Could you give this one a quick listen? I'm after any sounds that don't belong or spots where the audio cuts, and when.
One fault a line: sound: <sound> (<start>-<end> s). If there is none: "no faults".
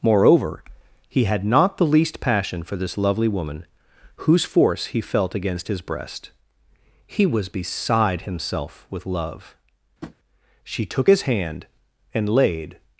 sound: tap (10.0-10.2 s)